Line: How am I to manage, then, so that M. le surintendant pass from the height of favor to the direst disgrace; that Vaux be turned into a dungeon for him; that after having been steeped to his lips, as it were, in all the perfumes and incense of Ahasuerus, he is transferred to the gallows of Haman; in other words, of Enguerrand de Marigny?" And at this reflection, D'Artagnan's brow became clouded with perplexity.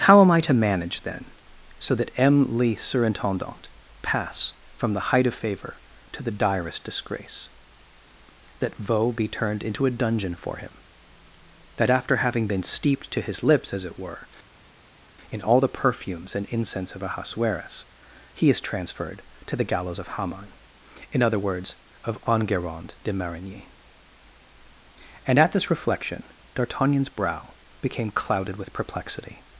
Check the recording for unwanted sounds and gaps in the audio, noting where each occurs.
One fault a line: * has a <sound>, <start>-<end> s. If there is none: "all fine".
all fine